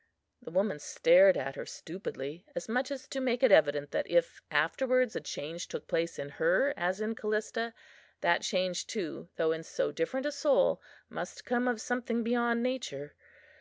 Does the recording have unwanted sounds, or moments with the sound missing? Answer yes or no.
no